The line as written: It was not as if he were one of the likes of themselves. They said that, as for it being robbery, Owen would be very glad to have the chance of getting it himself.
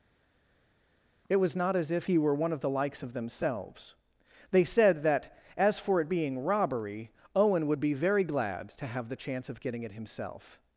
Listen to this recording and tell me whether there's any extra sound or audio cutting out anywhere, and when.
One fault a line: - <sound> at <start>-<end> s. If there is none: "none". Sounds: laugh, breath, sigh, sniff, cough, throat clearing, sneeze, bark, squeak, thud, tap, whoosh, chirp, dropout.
none